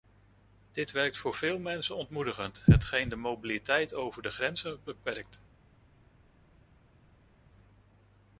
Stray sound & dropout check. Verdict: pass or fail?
pass